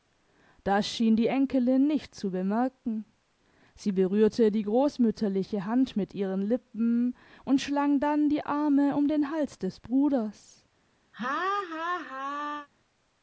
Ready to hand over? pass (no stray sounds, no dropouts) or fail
fail